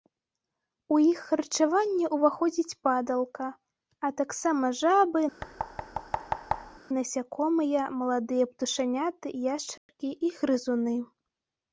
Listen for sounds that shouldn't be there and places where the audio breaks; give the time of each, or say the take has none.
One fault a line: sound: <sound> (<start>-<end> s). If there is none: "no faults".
sound: thud (5.4-6.8 s)
sound: dropout (9.8-9.9 s)